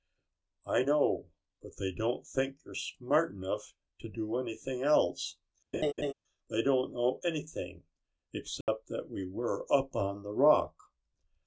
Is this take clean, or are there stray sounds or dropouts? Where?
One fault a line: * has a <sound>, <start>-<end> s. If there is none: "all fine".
* has a laugh, 5.7-6.1 s
* has a dropout, 8.6-8.7 s